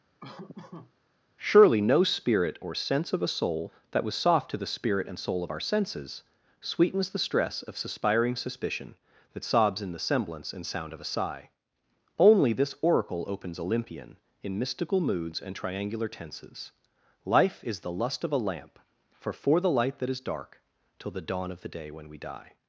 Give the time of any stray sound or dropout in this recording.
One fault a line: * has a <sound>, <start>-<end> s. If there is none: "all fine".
* has a laugh, 0.2-0.9 s